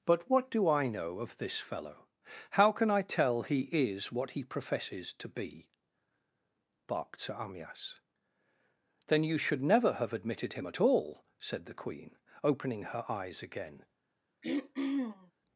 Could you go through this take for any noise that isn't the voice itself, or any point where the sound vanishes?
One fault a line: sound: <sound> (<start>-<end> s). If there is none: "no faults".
sound: throat clearing (14.4-15.3 s)